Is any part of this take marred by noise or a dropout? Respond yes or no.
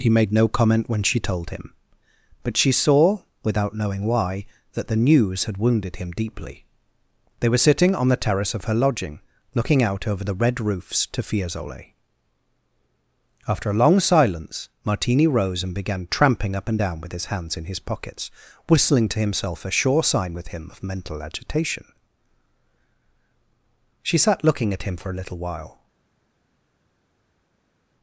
no